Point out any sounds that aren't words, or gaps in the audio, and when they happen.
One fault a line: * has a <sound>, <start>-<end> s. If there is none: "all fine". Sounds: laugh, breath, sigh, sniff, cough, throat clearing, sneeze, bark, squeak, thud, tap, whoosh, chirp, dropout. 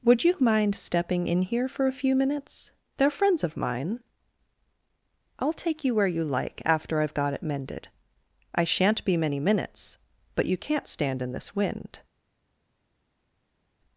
all fine